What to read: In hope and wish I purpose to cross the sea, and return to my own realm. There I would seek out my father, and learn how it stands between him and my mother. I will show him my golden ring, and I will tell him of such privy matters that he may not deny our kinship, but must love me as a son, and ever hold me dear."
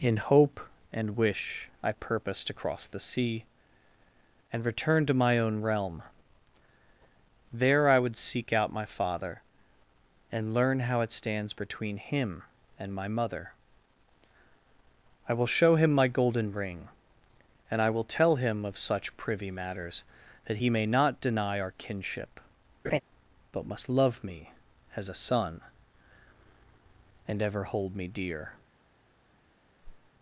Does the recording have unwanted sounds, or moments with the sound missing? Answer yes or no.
yes